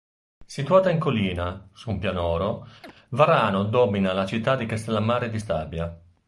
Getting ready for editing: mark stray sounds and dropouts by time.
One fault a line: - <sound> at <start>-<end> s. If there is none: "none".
- chirp at 2.8-2.9 s